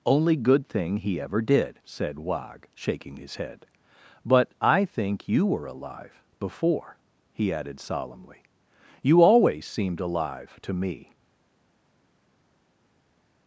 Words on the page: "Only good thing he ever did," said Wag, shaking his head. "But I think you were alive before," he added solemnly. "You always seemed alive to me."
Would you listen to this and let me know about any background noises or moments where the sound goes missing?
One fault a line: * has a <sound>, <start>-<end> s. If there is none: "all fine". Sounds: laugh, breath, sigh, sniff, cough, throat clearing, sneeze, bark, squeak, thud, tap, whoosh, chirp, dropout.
all fine